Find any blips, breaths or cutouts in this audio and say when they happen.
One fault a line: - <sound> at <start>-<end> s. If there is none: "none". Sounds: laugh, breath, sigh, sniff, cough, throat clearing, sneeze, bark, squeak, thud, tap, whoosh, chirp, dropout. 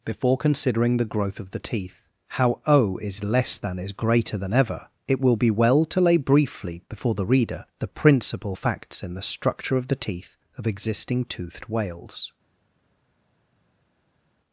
none